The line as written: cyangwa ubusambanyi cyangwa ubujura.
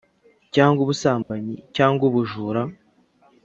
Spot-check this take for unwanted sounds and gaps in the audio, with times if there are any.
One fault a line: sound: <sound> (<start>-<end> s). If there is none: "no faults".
sound: dropout (1.2-1.3 s)